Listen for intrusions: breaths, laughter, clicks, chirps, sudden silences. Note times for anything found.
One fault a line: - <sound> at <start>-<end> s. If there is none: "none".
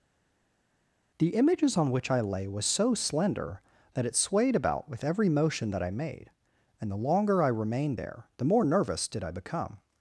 none